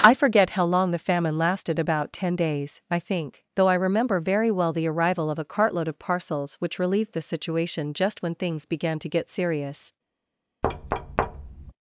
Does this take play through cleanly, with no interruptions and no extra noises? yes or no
no